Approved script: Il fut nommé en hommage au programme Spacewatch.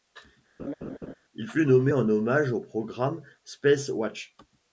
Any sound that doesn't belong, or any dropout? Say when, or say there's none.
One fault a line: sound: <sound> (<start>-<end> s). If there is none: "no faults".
sound: laugh (0.6-1.1 s)